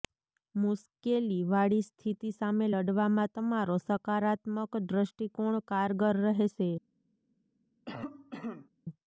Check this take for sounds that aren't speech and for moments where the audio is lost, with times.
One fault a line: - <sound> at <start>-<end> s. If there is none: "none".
- cough at 7.9-8.7 s